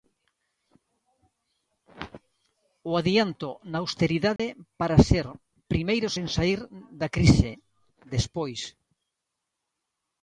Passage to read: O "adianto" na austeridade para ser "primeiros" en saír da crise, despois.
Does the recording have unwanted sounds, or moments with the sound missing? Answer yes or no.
yes